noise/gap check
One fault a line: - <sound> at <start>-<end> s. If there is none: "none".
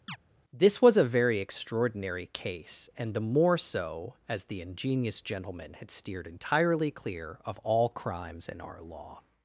- chirp at 0.1-0.2 s